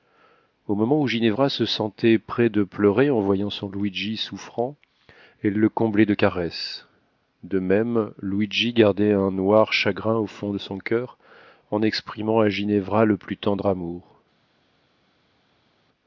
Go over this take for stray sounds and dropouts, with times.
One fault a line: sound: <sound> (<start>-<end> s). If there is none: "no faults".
no faults